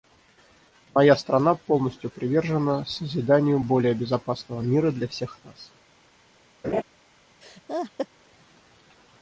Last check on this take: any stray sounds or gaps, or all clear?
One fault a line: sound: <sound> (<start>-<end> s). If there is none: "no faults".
sound: laugh (6.6-6.8 s)
sound: laugh (7.4-8.1 s)